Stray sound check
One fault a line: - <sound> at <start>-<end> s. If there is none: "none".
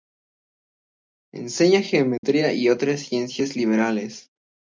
- dropout at 2.2-2.2 s